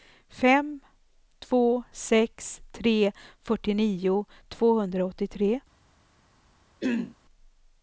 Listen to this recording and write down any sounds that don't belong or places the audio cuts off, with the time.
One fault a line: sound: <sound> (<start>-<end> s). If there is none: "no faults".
sound: throat clearing (6.8-7.2 s)